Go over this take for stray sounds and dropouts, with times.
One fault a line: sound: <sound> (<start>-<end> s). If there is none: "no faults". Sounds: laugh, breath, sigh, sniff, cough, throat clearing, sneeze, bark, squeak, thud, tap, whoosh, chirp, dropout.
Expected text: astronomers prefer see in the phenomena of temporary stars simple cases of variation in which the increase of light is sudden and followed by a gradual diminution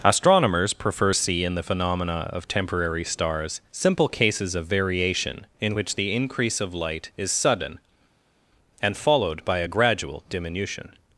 no faults